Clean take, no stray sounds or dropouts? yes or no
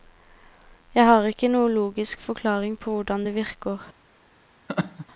no